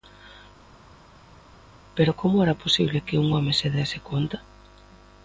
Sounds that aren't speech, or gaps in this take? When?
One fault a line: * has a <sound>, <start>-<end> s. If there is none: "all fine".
all fine